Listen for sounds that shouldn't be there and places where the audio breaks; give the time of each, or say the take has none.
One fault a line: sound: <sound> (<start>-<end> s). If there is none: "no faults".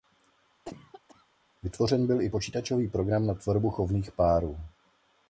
sound: cough (0.6-1.3 s)